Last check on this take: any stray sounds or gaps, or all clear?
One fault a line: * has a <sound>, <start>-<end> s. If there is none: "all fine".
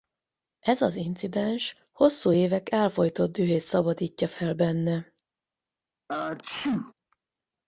* has a sneeze, 6.1-6.9 s